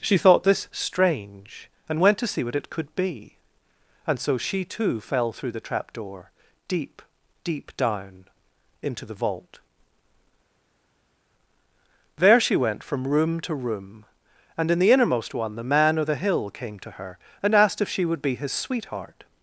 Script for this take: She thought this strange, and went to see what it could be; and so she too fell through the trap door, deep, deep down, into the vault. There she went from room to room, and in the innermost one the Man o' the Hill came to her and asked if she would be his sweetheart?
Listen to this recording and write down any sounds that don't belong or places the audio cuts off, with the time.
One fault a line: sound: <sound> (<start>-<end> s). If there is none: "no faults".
no faults